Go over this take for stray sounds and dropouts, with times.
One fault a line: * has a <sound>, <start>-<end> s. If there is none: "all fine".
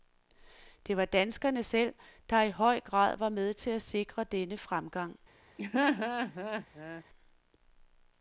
* has a laugh, 5.6-7.0 s